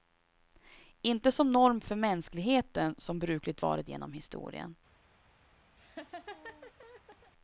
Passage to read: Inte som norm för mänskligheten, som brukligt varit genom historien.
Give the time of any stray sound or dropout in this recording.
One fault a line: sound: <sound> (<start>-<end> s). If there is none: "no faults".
sound: laugh (5.8-7.3 s)